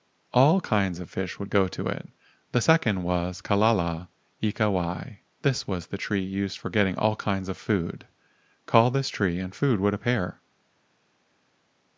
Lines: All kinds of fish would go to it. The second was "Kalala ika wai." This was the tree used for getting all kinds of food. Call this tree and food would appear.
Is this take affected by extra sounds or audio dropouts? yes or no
no